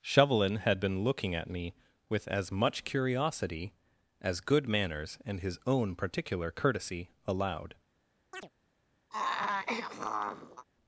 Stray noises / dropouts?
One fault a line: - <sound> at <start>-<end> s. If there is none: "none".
- chirp at 8.3-8.5 s
- throat clearing at 9.1-10.6 s